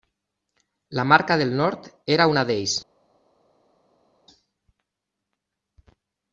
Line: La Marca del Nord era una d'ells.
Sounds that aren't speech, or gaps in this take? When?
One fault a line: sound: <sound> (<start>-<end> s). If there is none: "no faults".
no faults